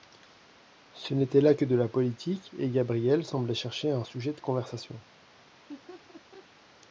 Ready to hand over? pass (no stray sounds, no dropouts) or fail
fail